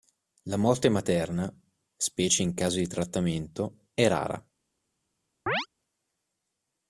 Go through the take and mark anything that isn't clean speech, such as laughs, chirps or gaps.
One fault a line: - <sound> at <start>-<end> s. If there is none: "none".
- chirp at 5.5-5.7 s